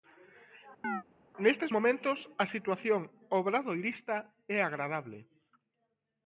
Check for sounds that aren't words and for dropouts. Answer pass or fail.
fail